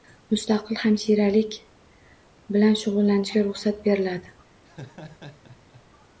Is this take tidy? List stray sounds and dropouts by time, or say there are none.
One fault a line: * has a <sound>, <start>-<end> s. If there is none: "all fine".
* has a laugh, 4.6-5.8 s